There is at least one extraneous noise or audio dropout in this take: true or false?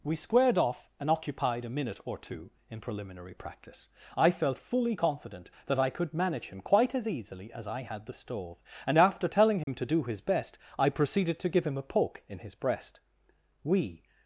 true